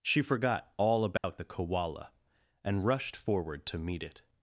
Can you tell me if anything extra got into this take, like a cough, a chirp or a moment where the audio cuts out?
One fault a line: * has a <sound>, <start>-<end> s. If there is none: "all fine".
* has a dropout, 1.2-1.2 s